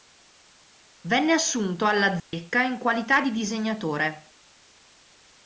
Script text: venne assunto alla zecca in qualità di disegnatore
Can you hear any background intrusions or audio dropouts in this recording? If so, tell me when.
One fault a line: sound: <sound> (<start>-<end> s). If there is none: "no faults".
sound: dropout (2.2-2.3 s)